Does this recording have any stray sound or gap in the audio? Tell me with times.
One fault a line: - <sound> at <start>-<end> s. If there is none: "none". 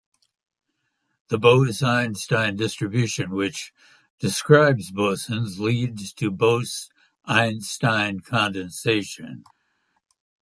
none